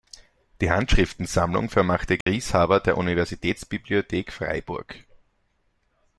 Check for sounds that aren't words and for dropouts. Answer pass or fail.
fail